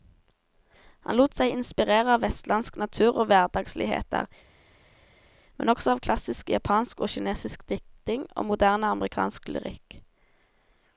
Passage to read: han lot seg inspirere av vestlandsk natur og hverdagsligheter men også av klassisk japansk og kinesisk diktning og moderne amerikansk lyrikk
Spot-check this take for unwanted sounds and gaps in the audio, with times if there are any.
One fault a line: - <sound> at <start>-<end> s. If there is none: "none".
none